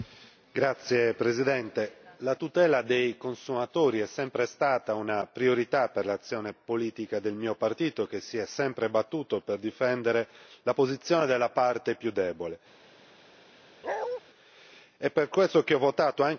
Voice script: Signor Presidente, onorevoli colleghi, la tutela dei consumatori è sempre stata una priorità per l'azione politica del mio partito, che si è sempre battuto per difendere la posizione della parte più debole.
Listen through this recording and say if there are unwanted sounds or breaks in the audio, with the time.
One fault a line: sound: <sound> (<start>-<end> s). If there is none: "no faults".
sound: bark (13.8-14.2 s)